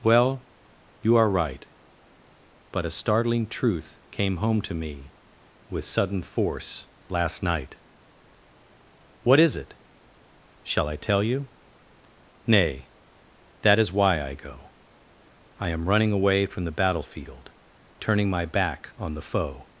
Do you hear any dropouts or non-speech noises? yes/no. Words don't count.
no